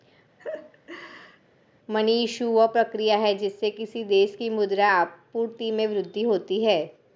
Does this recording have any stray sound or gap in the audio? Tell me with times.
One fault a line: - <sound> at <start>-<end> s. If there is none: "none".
- laugh at 0.4-1.4 s